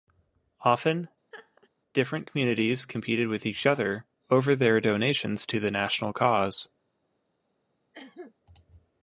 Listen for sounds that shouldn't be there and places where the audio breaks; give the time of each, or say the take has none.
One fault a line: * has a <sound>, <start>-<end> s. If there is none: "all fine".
* has a laugh, 1.3-1.7 s
* has a cough, 7.9-8.3 s